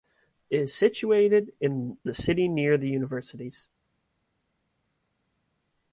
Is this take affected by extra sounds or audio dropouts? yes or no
no